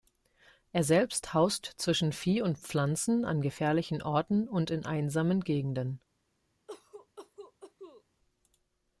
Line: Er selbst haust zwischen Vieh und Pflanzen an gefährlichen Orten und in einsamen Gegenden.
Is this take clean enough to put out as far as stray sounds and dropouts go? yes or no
no